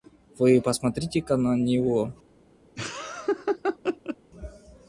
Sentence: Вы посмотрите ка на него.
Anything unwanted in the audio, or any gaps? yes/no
yes